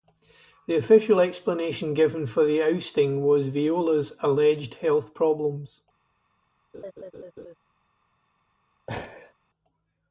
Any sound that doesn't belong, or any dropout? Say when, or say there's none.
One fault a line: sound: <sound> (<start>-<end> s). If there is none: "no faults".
sound: laugh (6.7-7.6 s)
sound: laugh (8.9-9.3 s)